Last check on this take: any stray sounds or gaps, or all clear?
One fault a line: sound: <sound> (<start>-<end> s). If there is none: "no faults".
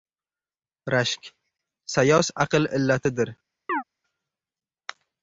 sound: chirp (3.7-3.8 s)